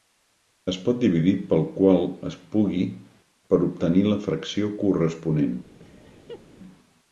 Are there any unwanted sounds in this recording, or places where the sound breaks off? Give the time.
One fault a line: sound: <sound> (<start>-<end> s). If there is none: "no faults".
sound: laugh (5.8-6.4 s)